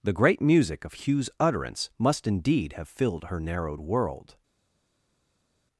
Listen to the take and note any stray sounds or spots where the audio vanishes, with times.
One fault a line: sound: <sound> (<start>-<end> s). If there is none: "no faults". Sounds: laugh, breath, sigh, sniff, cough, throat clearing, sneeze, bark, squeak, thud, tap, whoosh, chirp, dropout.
no faults